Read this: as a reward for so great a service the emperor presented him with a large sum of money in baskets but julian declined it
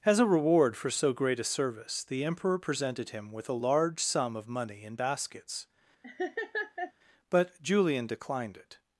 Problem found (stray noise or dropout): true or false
true